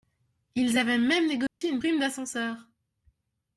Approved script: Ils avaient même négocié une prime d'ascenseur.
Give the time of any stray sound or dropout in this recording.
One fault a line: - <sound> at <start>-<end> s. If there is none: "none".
- dropout at 1.5-1.6 s